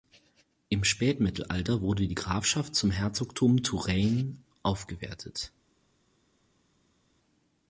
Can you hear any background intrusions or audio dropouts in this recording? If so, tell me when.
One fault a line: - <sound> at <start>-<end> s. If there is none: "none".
none